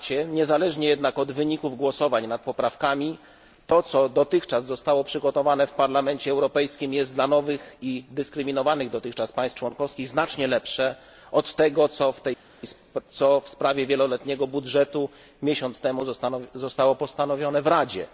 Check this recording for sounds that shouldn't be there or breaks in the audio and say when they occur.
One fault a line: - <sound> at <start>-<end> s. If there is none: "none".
none